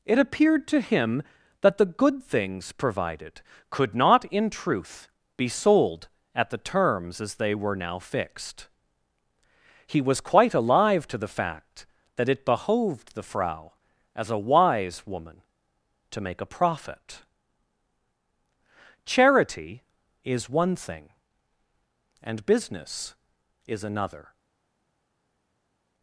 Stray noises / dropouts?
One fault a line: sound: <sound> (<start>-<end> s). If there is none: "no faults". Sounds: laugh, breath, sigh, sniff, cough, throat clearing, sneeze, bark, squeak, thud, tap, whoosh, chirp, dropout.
no faults